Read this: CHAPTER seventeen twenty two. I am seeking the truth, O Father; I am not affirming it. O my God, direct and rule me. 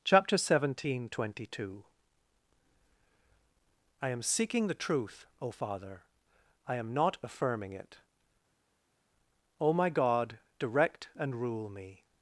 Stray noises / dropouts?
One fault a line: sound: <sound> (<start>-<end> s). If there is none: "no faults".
no faults